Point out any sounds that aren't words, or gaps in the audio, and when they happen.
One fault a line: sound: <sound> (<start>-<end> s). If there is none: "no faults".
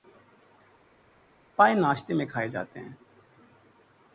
no faults